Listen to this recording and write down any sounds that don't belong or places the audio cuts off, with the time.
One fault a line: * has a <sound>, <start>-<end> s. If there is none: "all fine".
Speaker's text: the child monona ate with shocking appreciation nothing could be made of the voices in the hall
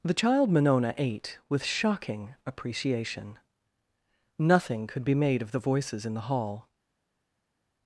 all fine